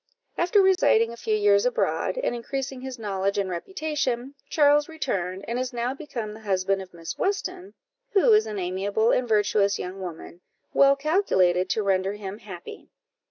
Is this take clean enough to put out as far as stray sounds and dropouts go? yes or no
no